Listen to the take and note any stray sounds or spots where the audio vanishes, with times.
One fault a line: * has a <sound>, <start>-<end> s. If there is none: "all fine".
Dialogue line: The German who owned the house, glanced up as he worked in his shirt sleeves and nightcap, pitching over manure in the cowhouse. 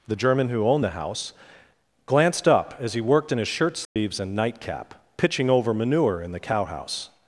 * has a dropout, 3.8-4.0 s